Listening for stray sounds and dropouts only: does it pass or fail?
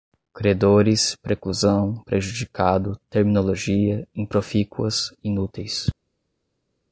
pass